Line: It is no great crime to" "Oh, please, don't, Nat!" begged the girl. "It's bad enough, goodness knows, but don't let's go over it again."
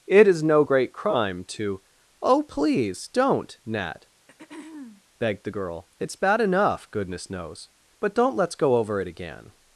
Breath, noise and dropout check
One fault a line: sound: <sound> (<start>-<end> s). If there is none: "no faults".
sound: throat clearing (4.2-5.0 s)